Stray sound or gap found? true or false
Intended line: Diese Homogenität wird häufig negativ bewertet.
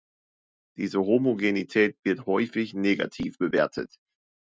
false